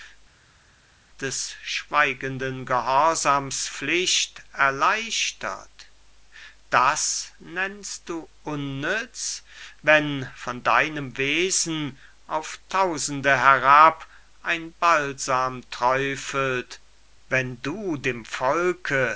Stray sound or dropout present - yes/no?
no